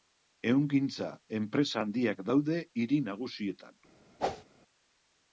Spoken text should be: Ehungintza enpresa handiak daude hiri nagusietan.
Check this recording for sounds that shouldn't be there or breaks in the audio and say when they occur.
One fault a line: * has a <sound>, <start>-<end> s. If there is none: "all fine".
* has a whoosh, 4.2-4.4 s